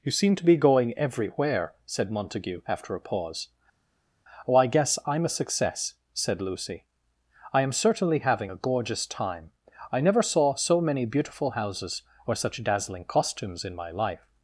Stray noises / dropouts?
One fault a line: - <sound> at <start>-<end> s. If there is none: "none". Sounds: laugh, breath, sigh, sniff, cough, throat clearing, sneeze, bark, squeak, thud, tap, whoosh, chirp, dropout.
none